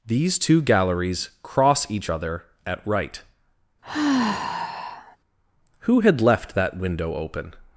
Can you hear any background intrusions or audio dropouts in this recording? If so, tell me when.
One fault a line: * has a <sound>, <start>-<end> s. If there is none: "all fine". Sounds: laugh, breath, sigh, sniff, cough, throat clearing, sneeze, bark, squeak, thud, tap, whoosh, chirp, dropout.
* has a sigh, 3.8-5.2 s